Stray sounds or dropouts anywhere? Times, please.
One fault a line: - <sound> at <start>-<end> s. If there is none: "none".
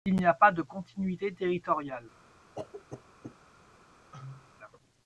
- cough at 2.6-3.4 s
- cough at 4.1-4.5 s